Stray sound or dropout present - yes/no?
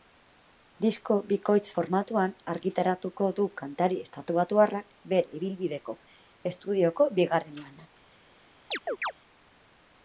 yes